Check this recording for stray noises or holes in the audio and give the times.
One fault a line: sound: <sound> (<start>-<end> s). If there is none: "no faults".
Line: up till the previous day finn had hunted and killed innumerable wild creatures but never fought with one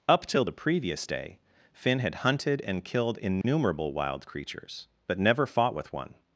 sound: dropout (3.4-3.4 s)